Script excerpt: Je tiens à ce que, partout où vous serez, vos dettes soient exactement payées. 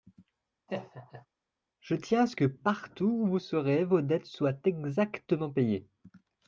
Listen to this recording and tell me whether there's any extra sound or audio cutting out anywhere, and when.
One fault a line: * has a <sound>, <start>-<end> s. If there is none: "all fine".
* has a laugh, 0.7-1.3 s